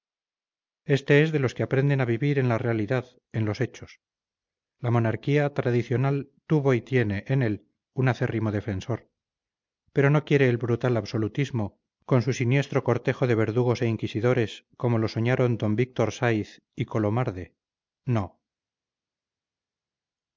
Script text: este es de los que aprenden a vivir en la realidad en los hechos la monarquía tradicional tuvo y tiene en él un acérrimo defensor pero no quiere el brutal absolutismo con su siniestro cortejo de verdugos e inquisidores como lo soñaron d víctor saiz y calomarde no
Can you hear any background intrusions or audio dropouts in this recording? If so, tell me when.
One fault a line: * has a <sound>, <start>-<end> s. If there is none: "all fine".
all fine